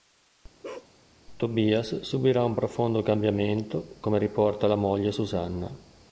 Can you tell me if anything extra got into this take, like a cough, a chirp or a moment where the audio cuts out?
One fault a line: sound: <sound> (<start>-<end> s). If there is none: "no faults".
sound: bark (0.6-0.9 s)